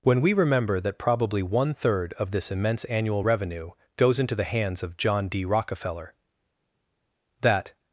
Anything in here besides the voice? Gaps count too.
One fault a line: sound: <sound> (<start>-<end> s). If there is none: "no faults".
no faults